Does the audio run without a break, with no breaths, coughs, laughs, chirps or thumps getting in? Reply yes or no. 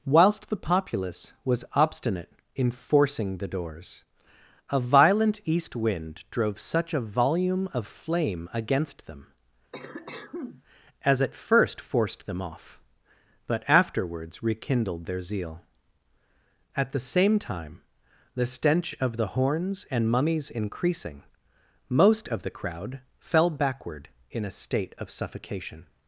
no